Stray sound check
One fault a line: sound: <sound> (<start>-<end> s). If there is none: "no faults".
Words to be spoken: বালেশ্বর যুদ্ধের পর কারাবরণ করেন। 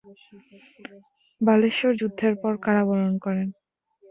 no faults